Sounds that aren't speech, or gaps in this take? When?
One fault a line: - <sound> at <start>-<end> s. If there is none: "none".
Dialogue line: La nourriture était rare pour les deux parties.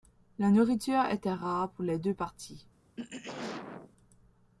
- throat clearing at 3.0-3.9 s